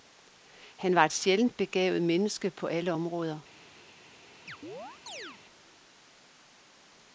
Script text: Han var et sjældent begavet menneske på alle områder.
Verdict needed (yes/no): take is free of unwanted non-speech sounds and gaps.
no